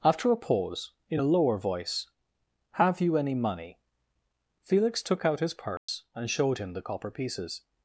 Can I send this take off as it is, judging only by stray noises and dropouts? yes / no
no